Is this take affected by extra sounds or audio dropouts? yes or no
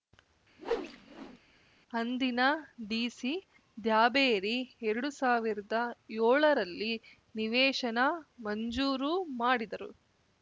yes